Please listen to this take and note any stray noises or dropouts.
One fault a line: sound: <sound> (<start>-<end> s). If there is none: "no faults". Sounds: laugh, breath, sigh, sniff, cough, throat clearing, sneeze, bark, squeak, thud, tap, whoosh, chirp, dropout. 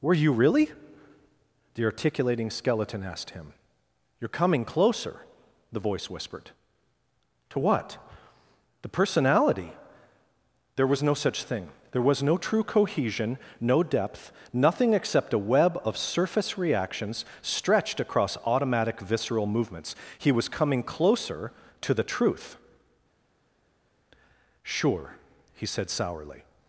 no faults